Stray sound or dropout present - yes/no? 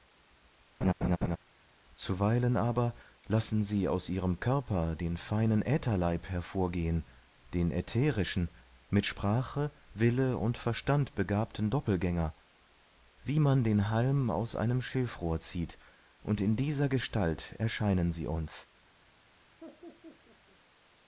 yes